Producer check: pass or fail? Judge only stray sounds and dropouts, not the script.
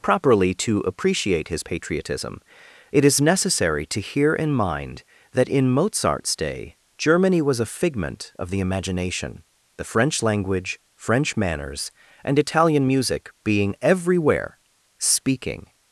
pass